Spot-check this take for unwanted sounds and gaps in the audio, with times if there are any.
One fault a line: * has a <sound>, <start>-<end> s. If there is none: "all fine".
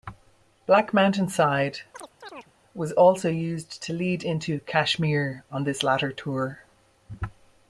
* has a chirp, 1.9-2.5 s